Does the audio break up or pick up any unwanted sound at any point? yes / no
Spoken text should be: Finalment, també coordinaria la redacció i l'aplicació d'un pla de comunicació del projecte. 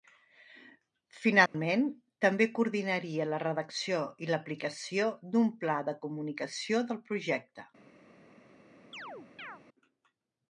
yes